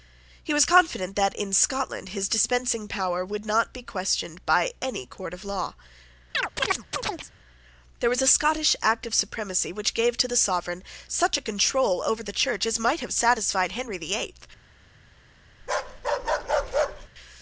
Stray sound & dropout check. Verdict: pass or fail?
fail